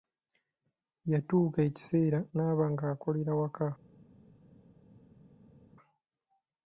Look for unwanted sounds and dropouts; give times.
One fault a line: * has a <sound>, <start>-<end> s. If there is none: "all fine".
all fine